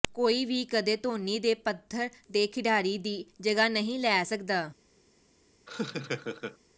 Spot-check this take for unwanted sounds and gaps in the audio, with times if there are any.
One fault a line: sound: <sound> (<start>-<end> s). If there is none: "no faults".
sound: laugh (5.7-6.6 s)